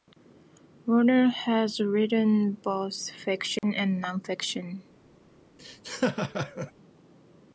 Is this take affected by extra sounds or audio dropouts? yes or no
yes